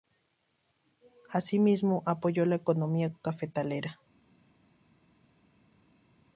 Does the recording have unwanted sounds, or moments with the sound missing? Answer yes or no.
no